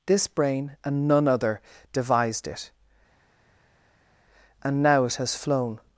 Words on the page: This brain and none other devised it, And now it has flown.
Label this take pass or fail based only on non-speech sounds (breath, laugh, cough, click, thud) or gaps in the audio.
pass